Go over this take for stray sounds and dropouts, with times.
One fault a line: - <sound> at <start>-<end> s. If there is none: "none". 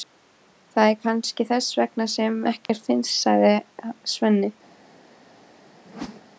- dropout at 2.7-2.7 s
- whoosh at 5.9-6.2 s